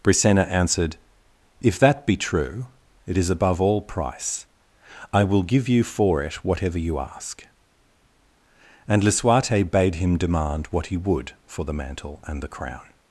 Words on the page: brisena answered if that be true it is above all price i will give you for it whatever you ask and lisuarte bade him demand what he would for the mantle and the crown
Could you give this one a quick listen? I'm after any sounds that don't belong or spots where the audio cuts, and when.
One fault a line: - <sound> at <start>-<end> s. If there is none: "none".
none